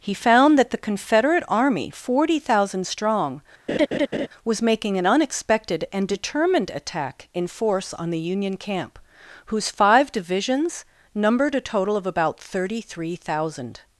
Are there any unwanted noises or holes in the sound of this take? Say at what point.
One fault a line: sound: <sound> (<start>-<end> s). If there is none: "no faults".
sound: laugh (3.7-4.3 s)